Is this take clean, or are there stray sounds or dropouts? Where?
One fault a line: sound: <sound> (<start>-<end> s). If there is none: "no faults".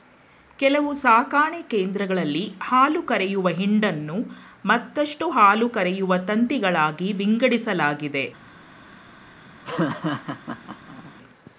sound: laugh (9.6-11.1 s)